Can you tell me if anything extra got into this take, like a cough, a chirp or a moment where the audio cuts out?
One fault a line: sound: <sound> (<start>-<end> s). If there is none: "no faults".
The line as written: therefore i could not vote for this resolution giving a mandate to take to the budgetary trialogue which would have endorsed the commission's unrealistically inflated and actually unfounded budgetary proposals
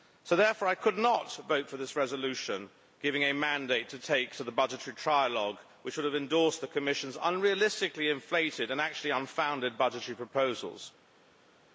no faults